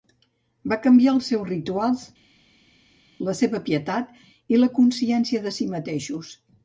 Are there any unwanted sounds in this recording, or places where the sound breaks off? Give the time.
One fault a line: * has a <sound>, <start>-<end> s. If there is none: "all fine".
all fine